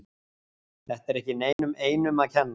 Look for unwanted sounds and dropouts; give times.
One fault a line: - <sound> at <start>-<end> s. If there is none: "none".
- dropout at 1.5-1.6 s